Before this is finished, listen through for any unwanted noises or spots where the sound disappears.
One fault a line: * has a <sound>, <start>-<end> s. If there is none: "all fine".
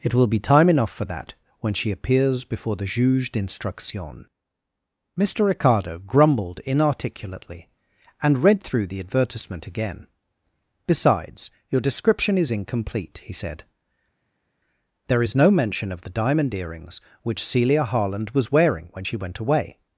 all fine